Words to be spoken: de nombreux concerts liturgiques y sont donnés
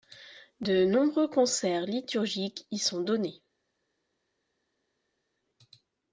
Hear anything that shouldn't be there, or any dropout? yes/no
no